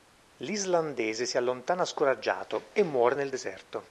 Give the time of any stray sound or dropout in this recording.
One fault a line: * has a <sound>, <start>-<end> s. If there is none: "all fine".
all fine